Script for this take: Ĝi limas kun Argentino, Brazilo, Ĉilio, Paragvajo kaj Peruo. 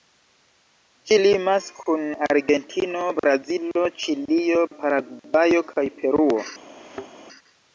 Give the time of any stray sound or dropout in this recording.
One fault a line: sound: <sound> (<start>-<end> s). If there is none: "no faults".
sound: thud (6.8-7.1 s)